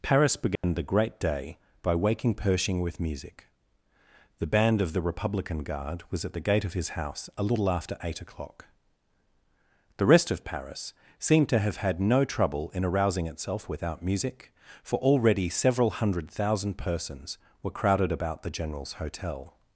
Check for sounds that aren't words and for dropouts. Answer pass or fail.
fail